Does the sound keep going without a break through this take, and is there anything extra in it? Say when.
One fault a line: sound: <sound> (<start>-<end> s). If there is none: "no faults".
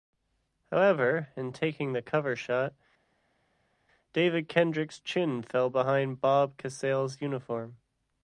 no faults